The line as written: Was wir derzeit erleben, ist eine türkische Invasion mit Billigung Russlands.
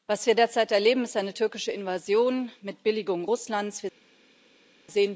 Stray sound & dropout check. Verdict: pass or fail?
pass